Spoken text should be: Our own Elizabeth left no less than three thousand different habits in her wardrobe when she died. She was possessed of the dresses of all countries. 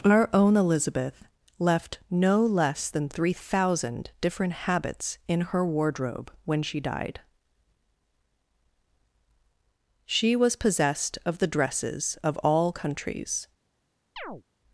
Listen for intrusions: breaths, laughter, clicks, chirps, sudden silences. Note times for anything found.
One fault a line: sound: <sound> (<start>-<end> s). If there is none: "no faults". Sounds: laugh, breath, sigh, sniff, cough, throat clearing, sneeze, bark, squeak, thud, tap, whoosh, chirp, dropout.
sound: chirp (14.2-14.4 s)